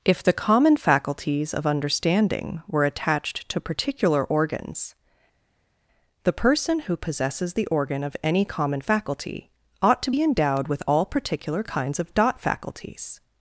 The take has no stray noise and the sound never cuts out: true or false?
true